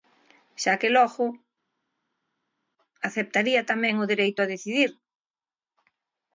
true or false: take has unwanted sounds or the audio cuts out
false